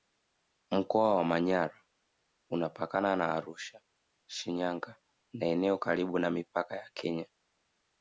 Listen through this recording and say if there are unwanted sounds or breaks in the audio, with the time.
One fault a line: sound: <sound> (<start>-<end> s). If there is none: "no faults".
no faults